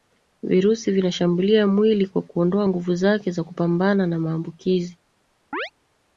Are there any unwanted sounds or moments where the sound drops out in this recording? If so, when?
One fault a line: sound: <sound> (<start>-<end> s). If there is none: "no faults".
sound: chirp (5.5-5.7 s)